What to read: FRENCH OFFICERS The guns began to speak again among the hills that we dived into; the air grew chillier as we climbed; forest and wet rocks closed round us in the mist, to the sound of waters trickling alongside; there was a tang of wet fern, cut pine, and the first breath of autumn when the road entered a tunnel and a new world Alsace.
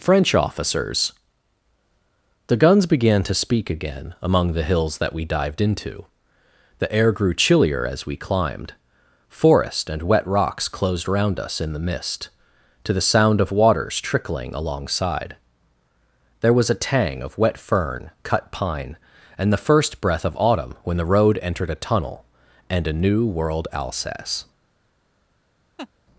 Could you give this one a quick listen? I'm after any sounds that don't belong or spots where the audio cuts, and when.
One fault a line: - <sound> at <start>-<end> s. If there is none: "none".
- laugh at 25.8-25.9 s